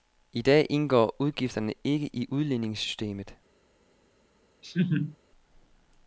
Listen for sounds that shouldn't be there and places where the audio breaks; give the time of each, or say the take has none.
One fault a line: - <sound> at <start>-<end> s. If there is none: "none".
- laugh at 4.6-5.2 s